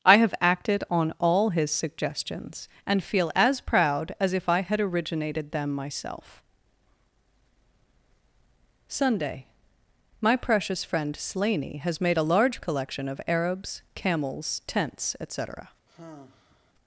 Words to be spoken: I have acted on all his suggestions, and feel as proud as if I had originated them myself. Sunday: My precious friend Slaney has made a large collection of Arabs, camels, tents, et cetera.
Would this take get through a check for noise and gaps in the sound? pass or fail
fail